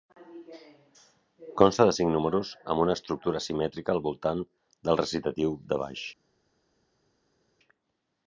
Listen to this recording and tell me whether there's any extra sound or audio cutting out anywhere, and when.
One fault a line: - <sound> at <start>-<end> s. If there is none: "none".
none